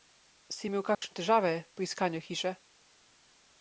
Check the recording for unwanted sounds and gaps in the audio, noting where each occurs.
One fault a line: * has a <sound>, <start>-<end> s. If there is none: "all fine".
* has a dropout, 0.9-1.0 s